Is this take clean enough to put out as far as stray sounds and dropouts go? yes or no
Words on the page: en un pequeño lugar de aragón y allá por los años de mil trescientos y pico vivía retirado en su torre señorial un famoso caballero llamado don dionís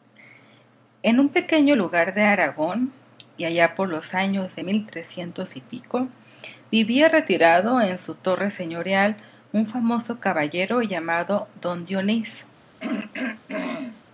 no